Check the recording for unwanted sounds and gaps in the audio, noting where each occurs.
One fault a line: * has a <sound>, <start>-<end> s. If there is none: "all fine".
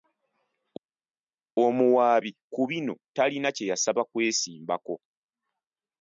all fine